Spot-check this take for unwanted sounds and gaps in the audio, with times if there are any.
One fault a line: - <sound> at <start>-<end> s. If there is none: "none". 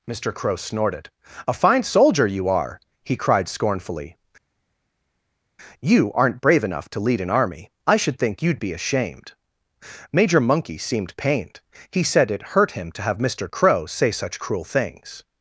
none